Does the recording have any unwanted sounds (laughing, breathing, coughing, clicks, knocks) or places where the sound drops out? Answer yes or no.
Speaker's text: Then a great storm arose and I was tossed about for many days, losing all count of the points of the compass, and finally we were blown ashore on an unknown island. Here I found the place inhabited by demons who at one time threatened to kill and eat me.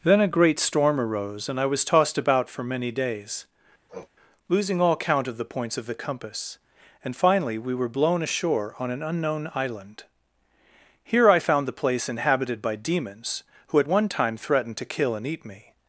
yes